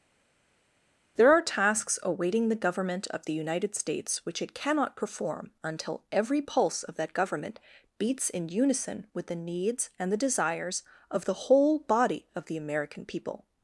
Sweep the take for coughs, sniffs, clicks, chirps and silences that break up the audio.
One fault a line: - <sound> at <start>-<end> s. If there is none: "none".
none